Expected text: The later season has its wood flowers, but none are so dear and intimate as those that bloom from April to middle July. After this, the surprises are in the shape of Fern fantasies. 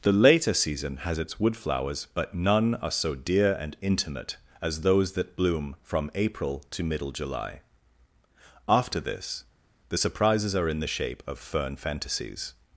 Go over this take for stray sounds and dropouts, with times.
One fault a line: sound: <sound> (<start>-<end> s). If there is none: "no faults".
no faults